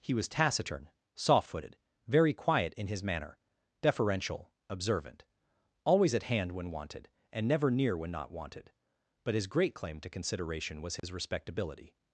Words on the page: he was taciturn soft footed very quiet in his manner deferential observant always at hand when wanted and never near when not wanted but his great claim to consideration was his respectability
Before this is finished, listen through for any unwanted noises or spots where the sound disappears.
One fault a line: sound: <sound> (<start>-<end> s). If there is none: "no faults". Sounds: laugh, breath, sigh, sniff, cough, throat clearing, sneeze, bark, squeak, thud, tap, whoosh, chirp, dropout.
sound: dropout (11.0-11.0 s)